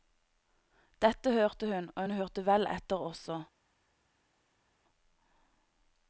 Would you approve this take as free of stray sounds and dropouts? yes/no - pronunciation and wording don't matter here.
yes